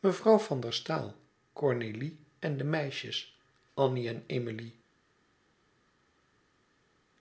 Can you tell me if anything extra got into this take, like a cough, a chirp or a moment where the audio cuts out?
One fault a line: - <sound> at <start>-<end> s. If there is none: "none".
none